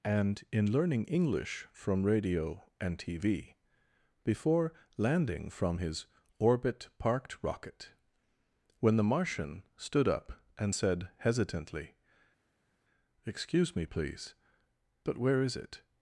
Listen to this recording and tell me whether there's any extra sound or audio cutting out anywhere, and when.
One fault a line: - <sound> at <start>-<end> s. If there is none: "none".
none